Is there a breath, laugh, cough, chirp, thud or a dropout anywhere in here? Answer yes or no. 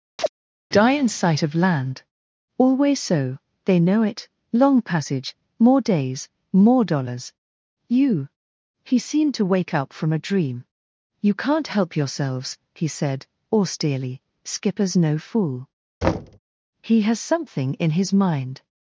yes